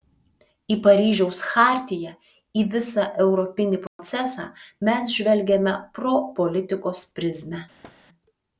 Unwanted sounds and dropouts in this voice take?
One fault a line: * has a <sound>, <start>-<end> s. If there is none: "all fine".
* has a dropout, 3.9-4.0 s
* has a thud, 7.8-8.0 s